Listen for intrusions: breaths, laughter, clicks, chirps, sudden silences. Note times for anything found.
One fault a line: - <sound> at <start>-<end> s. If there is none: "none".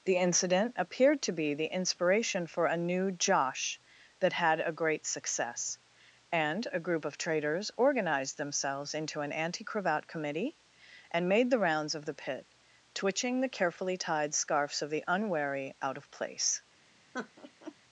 - laugh at 17.1-17.8 s